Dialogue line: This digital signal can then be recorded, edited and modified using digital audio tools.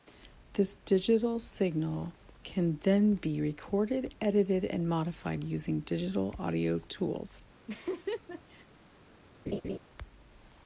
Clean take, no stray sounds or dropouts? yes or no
no